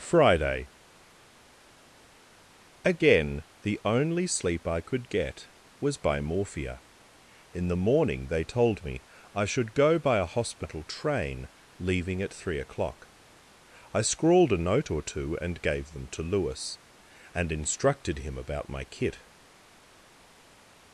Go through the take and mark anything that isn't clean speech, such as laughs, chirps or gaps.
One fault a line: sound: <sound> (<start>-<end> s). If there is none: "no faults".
no faults